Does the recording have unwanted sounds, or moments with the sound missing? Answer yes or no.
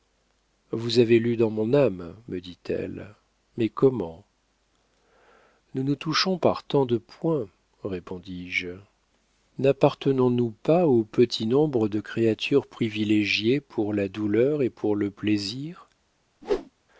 yes